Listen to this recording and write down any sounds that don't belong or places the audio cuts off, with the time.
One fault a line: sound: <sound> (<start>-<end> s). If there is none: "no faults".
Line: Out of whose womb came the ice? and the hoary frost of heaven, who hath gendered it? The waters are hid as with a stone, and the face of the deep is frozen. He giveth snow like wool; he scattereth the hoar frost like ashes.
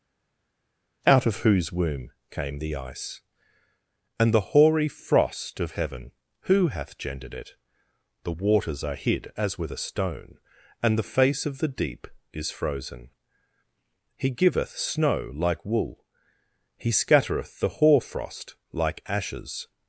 no faults